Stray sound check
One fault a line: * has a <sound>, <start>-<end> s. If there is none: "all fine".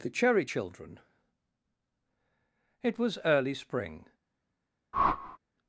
* has a whoosh, 4.9-5.4 s